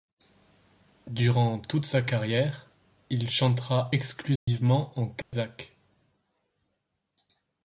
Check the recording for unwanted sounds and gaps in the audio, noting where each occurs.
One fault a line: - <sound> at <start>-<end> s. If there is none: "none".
- dropout at 4.4-4.5 s
- dropout at 5.2-5.3 s